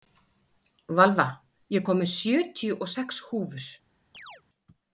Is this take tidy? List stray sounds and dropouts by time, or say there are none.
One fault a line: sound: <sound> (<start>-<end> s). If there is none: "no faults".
sound: chirp (4.1-4.4 s)